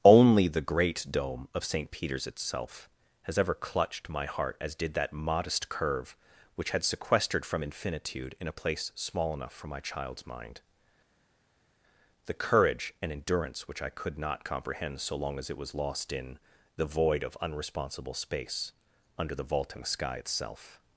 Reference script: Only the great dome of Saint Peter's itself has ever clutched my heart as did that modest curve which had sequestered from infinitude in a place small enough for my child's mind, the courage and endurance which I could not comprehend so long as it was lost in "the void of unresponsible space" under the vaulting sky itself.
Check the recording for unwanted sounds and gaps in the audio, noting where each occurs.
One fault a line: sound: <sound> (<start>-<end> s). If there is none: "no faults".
no faults